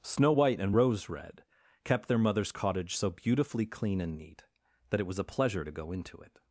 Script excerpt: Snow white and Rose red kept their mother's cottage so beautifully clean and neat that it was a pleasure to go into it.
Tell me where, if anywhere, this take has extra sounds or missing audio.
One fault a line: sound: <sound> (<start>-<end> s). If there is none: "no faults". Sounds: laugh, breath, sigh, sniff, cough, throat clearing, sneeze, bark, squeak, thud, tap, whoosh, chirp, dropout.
no faults